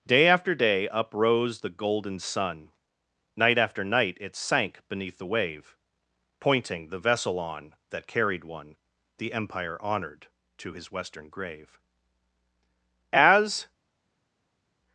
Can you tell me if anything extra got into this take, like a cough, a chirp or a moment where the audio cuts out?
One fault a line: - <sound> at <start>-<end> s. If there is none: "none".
none